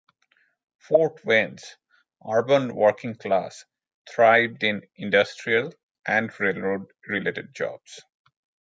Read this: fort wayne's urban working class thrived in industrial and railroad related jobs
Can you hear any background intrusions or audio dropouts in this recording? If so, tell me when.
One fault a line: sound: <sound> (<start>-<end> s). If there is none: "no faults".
no faults